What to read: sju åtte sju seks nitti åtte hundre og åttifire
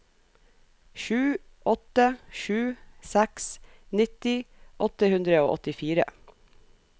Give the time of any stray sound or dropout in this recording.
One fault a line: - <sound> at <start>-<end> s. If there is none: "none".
none